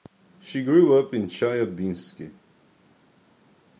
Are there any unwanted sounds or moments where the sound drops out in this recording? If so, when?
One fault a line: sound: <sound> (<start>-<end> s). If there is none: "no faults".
no faults